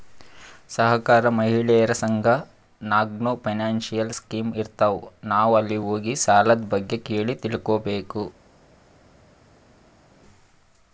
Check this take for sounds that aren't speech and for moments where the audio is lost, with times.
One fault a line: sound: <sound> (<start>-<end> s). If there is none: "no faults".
no faults